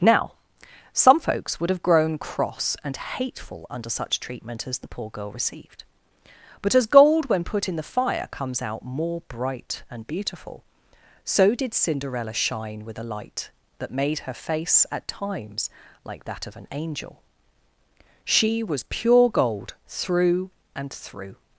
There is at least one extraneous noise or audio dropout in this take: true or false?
false